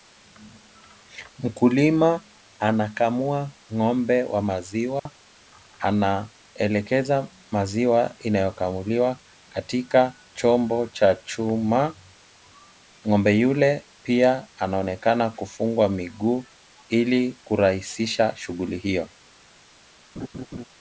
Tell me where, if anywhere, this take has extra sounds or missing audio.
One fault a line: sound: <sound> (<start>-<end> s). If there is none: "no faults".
sound: dropout (5.0-5.1 s)
sound: laugh (20.2-20.6 s)